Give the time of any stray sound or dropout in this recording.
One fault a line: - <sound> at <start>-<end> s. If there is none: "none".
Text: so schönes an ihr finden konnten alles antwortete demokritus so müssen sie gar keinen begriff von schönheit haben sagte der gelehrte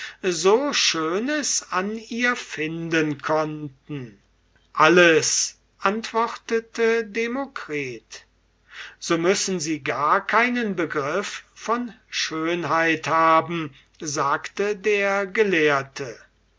none